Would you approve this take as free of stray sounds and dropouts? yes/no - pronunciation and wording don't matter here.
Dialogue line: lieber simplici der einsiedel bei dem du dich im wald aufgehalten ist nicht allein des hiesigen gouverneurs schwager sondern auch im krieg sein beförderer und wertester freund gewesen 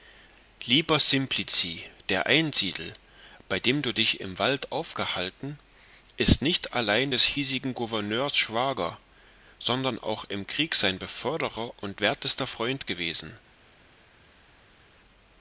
yes